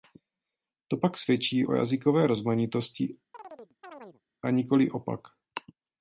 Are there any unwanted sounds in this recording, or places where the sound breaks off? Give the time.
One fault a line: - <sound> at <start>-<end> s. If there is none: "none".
- chirp at 3.3-4.2 s